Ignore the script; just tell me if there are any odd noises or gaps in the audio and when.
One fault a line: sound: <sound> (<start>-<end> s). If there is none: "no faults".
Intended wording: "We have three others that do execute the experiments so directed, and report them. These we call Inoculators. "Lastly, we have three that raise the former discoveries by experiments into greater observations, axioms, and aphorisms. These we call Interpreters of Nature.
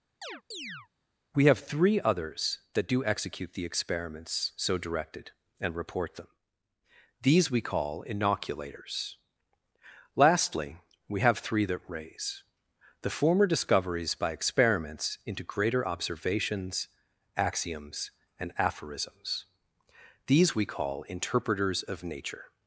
sound: chirp (0.2-0.9 s)